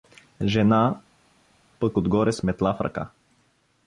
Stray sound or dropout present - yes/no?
no